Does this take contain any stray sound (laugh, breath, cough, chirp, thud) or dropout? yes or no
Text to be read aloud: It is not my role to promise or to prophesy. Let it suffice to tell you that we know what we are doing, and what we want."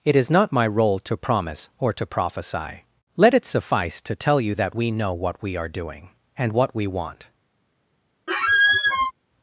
yes